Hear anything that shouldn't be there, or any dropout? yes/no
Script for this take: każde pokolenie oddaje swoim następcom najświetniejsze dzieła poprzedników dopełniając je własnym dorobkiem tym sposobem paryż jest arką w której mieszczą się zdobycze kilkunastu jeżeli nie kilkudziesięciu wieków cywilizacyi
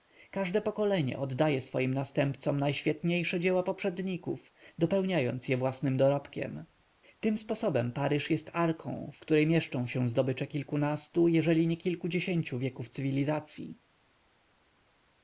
no